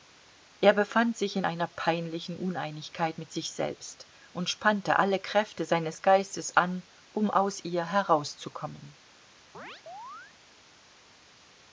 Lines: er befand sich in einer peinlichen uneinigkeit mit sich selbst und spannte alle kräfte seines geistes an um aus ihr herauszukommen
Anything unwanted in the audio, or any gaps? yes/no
yes